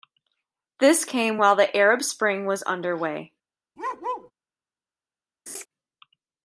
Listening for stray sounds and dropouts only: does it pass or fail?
fail